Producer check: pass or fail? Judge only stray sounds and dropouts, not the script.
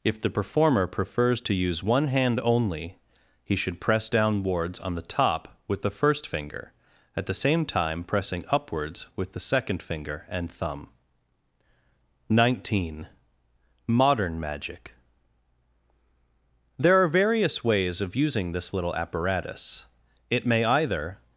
pass